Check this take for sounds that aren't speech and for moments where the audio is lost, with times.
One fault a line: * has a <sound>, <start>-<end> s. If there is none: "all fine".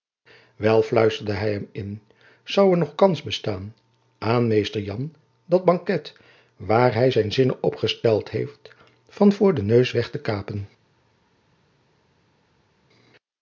all fine